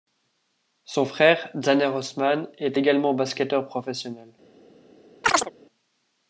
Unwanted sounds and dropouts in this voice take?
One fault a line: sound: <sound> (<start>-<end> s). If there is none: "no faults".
sound: chirp (5.2-5.5 s)